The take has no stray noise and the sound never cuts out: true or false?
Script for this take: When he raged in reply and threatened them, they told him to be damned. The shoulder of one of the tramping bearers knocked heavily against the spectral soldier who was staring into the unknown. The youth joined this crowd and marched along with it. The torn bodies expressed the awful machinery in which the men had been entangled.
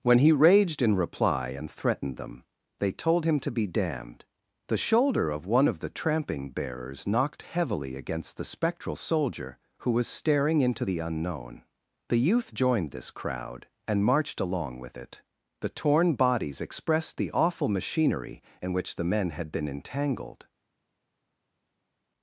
true